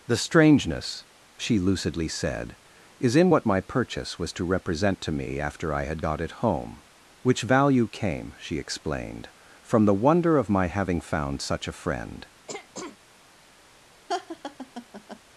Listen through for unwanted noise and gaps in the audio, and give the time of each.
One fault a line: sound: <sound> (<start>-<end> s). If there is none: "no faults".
sound: throat clearing (12.5-13.0 s)
sound: laugh (14.1-15.2 s)